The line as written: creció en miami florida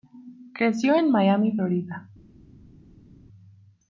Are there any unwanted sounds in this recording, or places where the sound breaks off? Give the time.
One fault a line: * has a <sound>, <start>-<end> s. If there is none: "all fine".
all fine